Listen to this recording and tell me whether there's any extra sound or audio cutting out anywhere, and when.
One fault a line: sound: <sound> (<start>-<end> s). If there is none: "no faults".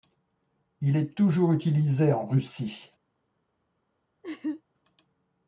sound: laugh (4.2-4.6 s)